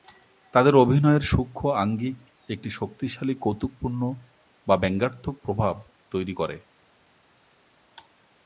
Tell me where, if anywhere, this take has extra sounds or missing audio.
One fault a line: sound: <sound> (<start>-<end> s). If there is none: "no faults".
no faults